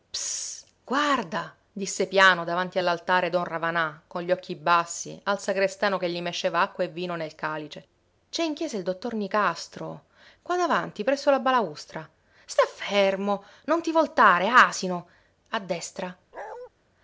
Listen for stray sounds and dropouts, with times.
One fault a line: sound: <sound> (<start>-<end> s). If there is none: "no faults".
sound: bark (16.3-16.7 s)